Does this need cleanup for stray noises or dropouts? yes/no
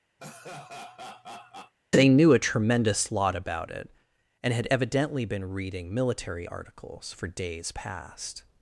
yes